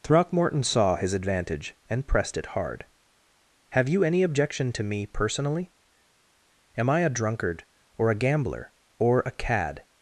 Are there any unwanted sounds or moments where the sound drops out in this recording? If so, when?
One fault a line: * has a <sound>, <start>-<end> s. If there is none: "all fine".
all fine